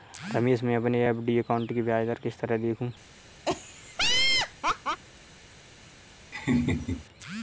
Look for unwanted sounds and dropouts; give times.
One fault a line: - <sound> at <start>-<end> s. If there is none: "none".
- laugh at 3.5-5.0 s
- laugh at 6.3-7.1 s